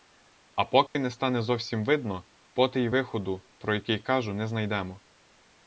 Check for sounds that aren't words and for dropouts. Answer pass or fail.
fail